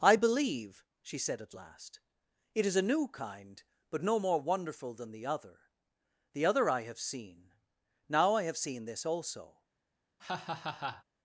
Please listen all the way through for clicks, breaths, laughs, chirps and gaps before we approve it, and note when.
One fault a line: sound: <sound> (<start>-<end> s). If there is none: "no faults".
sound: laugh (10.2-11.0 s)